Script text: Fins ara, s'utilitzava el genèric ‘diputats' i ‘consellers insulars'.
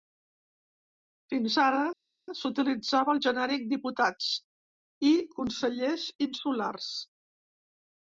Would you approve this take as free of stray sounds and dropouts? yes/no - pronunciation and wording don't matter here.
yes